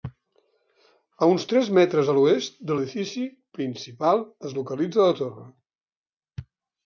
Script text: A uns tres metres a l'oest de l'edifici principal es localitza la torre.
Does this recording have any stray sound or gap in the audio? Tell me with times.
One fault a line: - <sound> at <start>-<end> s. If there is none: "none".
none